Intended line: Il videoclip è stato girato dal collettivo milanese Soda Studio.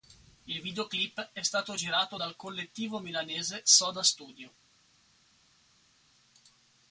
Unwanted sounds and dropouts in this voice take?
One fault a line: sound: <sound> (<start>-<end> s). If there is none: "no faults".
no faults